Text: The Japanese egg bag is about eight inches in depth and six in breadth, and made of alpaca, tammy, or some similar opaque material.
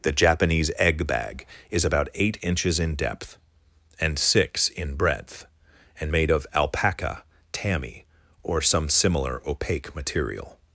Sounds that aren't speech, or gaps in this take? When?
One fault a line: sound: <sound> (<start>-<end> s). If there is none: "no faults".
no faults